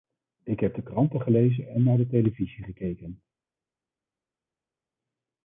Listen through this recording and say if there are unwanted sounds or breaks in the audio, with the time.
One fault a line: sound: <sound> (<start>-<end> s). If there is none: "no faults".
no faults